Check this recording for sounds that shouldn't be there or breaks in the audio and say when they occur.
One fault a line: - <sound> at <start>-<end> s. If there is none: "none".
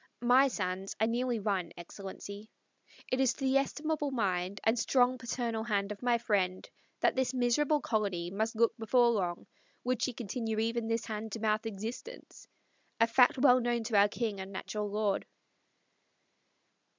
none